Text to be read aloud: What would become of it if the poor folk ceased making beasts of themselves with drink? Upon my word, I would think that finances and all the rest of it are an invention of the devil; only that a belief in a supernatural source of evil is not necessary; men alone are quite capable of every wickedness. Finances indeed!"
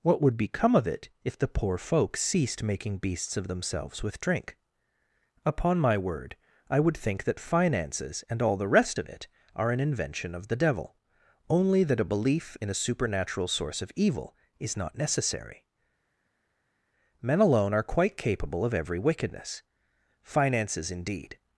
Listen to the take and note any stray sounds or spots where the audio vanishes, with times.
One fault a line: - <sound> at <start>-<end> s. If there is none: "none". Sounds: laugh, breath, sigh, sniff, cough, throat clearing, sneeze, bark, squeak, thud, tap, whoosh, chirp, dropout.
none